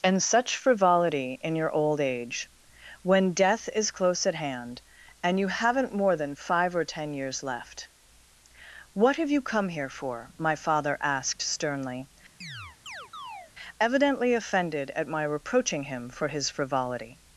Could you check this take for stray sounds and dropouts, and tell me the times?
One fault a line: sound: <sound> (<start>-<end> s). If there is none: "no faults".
sound: chirp (12.4-13.5 s)